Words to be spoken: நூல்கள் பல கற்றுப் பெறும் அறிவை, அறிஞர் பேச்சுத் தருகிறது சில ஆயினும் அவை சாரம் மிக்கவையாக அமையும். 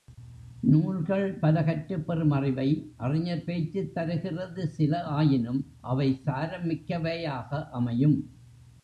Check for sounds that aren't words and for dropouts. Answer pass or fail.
pass